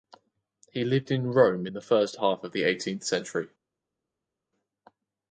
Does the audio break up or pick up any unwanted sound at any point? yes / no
no